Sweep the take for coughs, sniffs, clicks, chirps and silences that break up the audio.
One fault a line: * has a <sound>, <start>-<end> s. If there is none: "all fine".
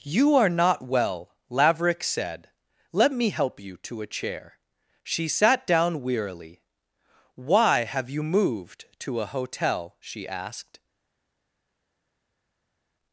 all fine